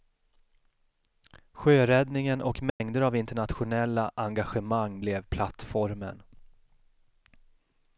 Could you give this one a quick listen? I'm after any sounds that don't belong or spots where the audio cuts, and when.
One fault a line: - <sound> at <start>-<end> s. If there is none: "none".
- dropout at 2.7-2.8 s